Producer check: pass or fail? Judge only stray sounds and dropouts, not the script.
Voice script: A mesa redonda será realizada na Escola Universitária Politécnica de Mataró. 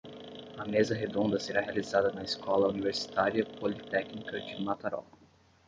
pass